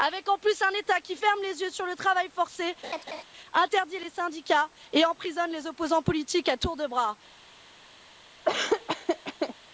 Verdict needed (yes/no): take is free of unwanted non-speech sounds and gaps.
no